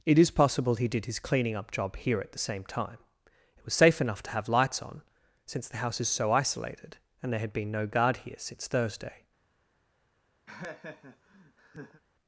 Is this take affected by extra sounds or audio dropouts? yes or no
yes